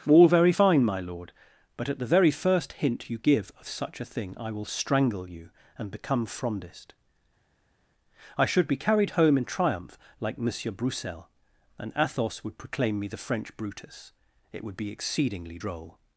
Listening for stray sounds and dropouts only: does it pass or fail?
pass